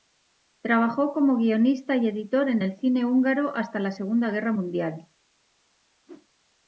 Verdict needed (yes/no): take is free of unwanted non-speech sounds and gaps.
no